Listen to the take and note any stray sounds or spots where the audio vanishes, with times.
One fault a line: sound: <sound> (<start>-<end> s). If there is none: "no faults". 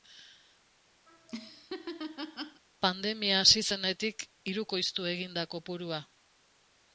sound: laugh (1.1-2.6 s)